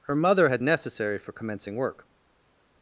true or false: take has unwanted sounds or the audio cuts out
false